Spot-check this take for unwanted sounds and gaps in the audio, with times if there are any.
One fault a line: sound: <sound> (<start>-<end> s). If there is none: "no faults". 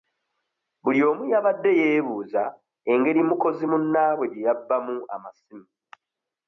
no faults